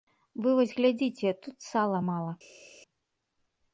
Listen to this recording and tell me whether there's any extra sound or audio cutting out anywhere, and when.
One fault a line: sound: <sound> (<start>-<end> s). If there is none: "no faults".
no faults